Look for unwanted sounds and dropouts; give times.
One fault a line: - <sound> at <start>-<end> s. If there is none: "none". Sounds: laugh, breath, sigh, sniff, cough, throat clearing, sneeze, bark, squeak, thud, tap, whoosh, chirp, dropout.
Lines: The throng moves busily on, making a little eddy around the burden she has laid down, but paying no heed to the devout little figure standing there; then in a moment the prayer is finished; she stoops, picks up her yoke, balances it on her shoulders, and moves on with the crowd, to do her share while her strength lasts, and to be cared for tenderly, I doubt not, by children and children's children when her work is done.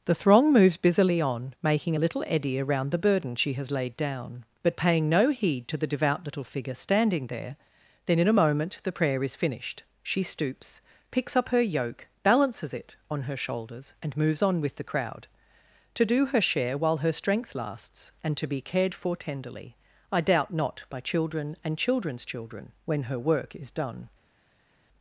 none